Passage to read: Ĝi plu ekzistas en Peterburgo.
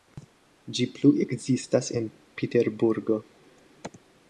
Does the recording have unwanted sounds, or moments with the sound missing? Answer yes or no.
no